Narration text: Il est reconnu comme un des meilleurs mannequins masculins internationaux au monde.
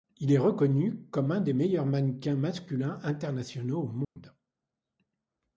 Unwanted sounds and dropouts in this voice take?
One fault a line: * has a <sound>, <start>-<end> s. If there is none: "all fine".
* has a dropout, 4.0-4.2 s